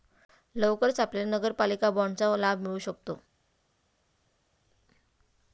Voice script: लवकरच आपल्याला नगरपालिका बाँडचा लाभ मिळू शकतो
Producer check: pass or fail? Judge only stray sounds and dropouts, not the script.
pass